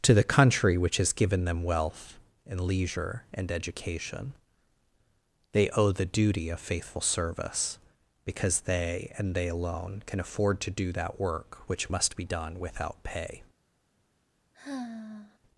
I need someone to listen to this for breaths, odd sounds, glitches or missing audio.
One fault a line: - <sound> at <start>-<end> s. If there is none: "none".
- sigh at 14.5-15.4 s